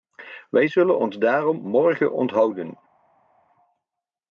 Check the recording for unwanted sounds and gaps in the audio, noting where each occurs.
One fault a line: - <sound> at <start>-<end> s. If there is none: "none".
none